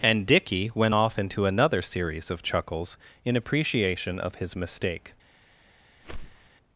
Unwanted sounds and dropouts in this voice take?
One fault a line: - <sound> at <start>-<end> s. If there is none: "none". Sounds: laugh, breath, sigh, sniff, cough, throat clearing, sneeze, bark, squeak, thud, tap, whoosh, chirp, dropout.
- whoosh at 6.0-6.5 s